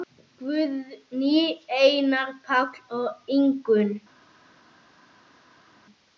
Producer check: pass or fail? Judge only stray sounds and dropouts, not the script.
pass